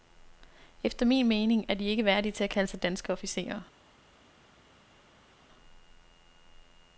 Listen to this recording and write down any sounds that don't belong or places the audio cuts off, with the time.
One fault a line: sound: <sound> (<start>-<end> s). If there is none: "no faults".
no faults